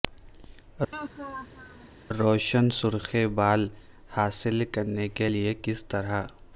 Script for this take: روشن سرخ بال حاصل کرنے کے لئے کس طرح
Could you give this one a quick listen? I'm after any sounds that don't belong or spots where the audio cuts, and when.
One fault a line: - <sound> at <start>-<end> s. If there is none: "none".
- laugh at 0.9-1.9 s